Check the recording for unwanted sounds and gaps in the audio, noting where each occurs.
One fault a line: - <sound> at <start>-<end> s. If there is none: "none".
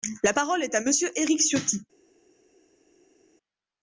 none